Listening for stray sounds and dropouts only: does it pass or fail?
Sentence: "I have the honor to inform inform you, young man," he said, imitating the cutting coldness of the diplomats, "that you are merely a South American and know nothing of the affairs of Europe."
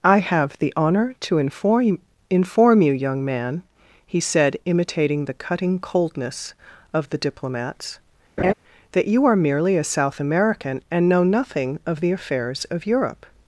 fail